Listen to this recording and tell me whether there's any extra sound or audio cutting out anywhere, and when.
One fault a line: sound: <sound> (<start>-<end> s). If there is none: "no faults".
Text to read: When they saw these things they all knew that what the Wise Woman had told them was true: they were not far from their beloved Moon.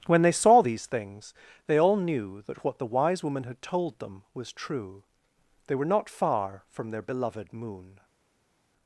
no faults